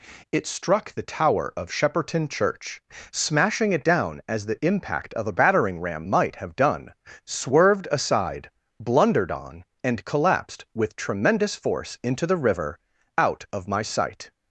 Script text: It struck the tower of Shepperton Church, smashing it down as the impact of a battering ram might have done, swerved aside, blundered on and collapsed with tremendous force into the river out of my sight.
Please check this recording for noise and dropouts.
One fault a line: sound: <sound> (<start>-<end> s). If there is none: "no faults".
no faults